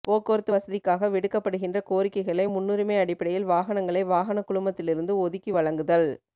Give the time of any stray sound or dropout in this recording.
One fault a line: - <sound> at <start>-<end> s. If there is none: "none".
none